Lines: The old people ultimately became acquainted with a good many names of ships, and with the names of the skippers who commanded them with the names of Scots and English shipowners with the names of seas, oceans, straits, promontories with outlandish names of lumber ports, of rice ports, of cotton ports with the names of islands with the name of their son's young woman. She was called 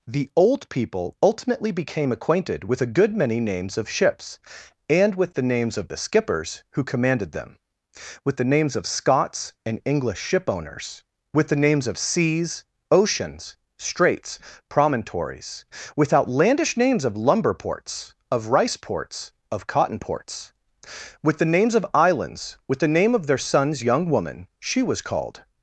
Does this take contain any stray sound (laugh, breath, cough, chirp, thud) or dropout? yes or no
no